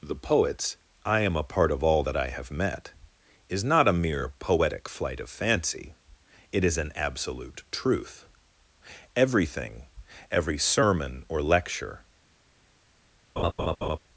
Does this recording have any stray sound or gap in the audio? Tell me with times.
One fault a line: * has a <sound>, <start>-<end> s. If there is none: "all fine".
* has a laugh, 13.4-14.0 s